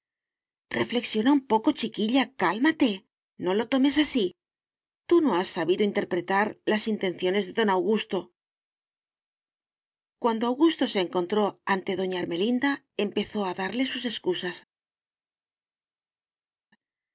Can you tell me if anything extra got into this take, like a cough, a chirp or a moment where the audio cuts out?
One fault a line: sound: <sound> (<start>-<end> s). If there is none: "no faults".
no faults